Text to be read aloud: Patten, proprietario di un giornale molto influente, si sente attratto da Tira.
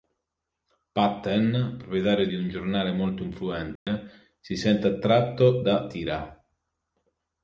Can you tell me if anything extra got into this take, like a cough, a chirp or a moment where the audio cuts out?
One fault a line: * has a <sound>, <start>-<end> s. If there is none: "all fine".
* has a dropout, 3.8-3.9 s